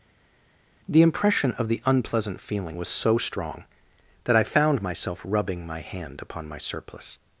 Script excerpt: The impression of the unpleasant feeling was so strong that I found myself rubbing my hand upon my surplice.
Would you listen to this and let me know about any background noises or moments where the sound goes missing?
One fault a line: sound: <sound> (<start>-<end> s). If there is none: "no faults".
no faults